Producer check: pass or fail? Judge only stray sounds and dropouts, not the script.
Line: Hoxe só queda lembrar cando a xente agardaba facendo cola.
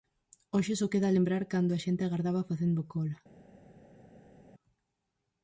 pass